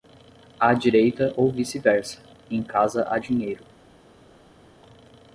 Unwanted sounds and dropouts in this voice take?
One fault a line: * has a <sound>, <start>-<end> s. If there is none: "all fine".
all fine